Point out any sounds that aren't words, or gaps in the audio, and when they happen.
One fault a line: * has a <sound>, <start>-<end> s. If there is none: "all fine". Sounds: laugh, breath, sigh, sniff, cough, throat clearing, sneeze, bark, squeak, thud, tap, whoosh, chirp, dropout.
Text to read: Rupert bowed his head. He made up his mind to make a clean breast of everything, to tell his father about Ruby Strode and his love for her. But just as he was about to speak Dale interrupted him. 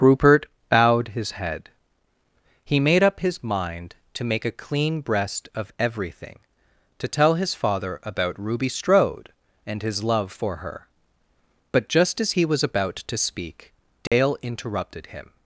* has a dropout, 14.1-14.1 s